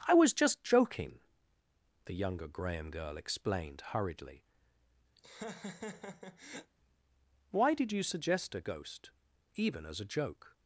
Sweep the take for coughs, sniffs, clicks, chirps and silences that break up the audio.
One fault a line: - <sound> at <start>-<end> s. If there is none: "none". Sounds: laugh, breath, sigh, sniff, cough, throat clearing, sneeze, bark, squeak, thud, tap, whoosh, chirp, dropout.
- laugh at 5.2-6.7 s